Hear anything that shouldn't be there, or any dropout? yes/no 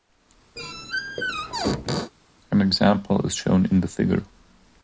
yes